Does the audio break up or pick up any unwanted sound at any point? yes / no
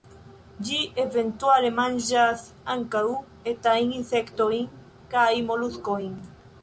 no